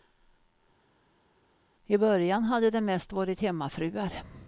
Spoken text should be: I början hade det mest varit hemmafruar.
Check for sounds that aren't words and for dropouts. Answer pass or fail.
pass